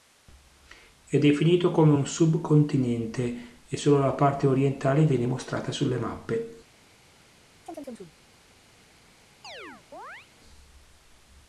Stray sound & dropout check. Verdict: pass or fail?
fail